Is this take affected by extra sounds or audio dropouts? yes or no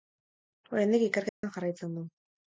yes